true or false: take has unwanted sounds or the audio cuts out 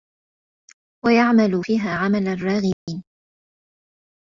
true